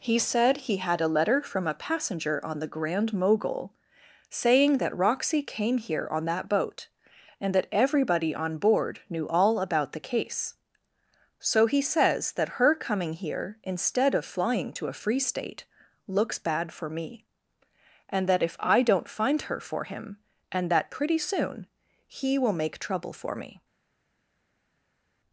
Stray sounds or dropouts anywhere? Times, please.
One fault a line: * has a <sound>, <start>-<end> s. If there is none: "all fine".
all fine